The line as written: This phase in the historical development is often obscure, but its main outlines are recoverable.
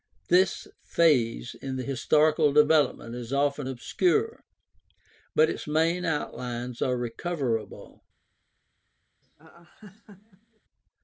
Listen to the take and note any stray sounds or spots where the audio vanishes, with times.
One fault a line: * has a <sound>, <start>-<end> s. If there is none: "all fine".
* has a laugh, 9.2-10.6 s